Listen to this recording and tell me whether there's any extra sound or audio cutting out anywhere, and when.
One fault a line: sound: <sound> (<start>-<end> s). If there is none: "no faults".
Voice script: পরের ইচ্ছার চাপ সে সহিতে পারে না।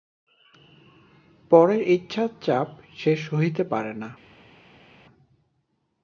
no faults